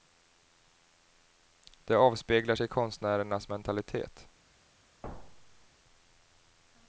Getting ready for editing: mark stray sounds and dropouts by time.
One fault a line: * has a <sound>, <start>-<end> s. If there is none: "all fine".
* has a thud, 5.0-5.7 s